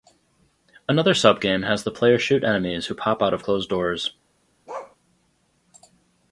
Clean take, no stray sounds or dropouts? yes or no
no